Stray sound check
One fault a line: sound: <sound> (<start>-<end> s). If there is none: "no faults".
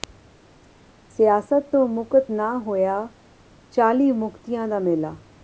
no faults